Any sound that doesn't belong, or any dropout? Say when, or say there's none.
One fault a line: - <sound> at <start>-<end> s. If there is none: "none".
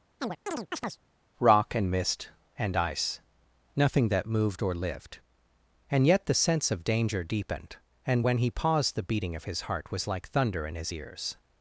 - chirp at 0.2-1.0 s